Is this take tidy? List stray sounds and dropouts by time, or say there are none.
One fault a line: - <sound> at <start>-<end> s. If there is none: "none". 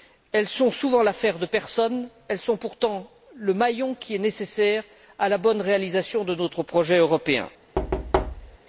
- thud at 7.8-8.6 s